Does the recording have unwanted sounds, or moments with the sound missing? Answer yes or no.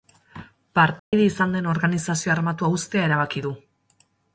yes